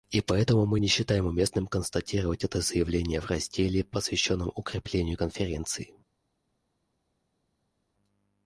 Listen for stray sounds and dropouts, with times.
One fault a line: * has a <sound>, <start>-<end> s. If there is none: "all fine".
all fine